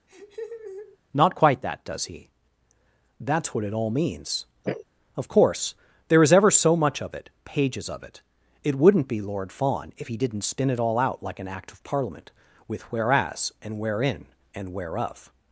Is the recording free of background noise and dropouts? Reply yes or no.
no